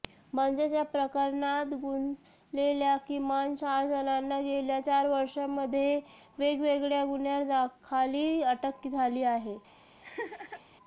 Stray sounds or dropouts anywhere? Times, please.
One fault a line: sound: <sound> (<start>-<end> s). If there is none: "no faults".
sound: laugh (10.0-10.6 s)